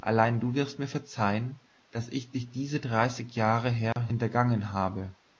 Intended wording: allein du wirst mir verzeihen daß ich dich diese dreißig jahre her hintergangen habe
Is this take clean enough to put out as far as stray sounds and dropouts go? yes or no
no